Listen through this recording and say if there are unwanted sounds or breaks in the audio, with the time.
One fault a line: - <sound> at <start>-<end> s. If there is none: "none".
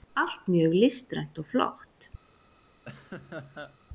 - laugh at 2.9-3.8 s